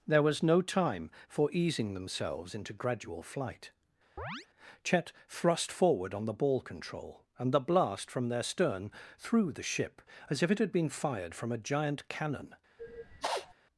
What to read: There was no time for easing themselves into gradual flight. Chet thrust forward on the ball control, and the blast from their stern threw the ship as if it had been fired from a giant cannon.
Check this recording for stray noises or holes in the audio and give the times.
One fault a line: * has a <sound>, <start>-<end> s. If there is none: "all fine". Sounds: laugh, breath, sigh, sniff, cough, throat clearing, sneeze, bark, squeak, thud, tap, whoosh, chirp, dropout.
* has a chirp, 4.2-4.5 s
* has a sniff, 12.8-13.5 s